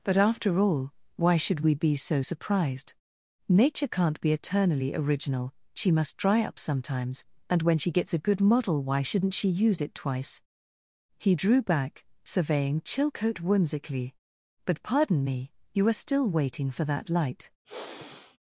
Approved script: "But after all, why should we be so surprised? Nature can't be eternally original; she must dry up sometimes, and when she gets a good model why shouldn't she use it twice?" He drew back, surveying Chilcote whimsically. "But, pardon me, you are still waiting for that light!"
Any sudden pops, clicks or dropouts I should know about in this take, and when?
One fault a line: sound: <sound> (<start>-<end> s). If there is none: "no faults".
sound: sigh (17.6-18.4 s)